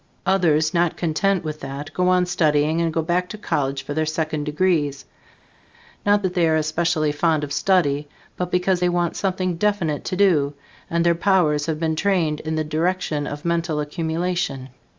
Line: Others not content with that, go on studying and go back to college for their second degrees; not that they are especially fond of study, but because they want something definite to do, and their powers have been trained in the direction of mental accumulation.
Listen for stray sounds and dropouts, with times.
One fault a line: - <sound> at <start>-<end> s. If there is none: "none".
none